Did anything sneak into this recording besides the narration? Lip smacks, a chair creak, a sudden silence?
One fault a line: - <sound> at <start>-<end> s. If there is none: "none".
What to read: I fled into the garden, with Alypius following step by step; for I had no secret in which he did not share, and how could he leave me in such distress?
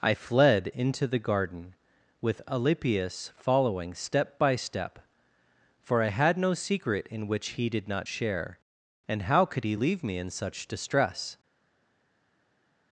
none